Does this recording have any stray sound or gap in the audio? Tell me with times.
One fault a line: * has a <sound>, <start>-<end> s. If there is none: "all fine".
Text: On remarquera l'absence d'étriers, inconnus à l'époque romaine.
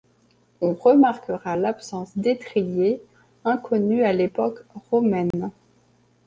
* has a dropout, 5.3-5.3 s